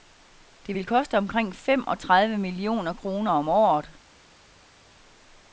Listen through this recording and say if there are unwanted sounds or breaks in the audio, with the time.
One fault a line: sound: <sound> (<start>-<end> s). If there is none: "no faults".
no faults